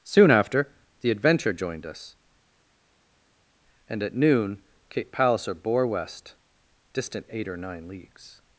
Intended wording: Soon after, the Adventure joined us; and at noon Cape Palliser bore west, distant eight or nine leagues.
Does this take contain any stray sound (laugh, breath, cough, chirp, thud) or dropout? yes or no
no